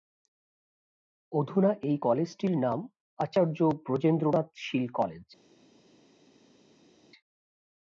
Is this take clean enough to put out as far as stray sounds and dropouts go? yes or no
yes